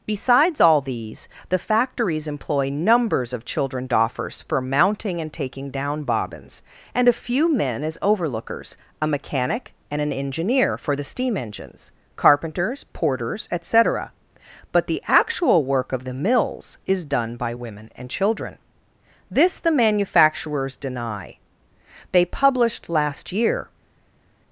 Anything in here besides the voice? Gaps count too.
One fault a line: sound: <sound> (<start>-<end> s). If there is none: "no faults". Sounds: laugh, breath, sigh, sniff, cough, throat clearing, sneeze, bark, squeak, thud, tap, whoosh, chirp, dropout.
no faults